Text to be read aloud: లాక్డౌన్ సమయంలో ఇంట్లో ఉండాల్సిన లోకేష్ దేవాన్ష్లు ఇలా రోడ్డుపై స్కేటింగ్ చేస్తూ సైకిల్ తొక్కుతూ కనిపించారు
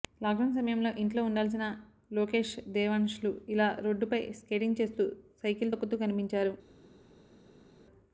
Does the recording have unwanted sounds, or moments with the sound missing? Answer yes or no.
no